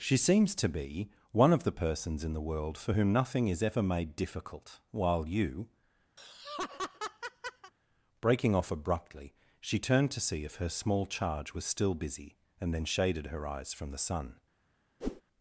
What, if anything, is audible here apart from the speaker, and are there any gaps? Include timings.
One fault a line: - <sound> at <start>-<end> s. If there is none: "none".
- laugh at 6.2-7.7 s
- whoosh at 15.0-15.2 s